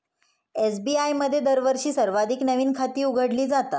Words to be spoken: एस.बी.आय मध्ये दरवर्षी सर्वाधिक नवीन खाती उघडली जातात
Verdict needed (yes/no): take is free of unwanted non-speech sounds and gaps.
yes